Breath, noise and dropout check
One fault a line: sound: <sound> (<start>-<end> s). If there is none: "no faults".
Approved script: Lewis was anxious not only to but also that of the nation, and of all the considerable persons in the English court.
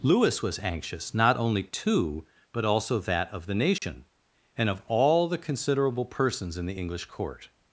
sound: dropout (3.8-3.8 s)